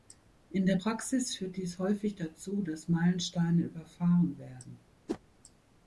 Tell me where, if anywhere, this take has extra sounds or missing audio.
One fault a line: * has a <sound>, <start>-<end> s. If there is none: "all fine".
* has a whoosh, 5.1-5.2 s